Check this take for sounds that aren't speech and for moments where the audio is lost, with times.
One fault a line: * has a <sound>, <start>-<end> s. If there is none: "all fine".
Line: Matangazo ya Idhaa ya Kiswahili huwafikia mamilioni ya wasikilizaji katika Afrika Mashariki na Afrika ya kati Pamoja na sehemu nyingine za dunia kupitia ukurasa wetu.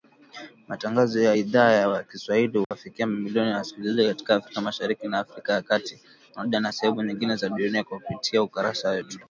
* has a dropout, 2.6-2.7 s